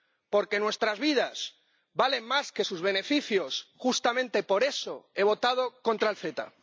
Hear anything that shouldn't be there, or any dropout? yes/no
no